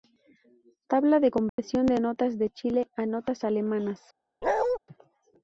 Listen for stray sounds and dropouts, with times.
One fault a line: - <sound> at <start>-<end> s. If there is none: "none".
- dropout at 1.5-1.6 s
- bark at 4.4-4.8 s